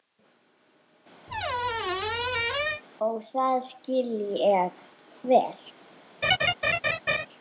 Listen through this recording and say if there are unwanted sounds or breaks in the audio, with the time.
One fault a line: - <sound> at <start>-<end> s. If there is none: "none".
- squeak at 1.3-2.8 s
- laugh at 6.2-7.3 s